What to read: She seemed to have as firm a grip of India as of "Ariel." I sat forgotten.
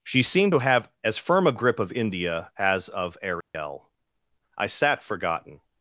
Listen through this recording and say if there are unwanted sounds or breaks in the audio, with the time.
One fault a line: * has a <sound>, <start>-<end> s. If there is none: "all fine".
* has a dropout, 3.4-3.5 s